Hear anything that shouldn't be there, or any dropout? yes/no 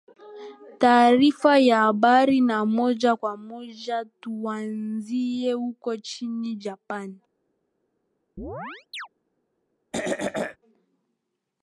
yes